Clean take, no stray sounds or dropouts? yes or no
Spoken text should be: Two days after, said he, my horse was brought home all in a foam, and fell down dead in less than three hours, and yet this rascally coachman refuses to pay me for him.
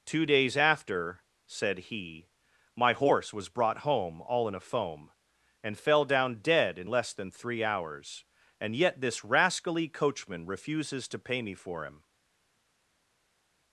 yes